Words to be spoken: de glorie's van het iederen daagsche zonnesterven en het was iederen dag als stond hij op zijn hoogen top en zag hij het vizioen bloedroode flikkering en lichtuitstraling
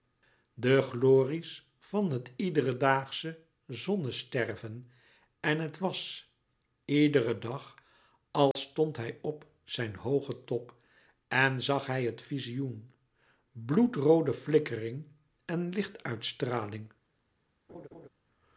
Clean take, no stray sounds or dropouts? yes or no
no